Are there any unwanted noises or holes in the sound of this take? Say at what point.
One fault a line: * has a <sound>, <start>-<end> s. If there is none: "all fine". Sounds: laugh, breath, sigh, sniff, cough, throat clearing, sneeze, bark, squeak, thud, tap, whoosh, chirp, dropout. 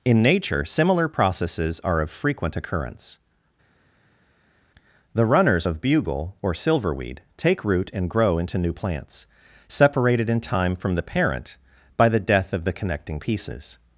all fine